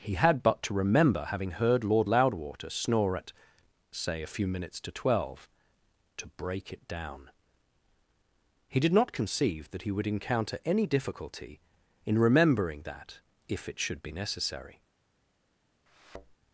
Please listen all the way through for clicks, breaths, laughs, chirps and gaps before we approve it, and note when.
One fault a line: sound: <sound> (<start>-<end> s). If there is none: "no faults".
sound: thud (15.9-16.4 s)